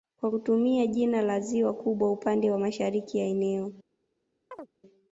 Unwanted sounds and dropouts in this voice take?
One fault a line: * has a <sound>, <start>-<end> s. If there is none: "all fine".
* has a chirp, 4.5-4.7 s